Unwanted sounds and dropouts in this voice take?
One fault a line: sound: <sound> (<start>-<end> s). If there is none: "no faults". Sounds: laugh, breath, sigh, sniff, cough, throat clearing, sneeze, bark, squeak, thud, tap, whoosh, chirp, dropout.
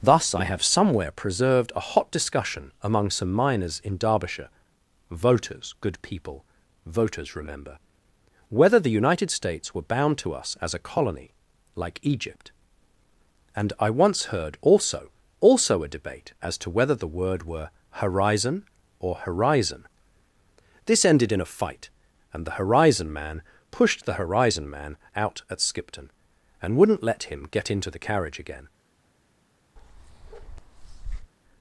sound: bark (29.8-31.3 s)